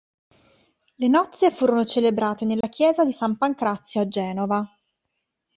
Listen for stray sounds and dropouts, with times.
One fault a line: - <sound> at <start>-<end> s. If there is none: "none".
- dropout at 2.6-2.6 s